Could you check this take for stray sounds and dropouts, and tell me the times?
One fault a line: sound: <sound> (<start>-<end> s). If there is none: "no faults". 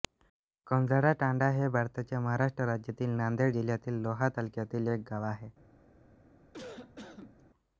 sound: cough (6.5-7.4 s)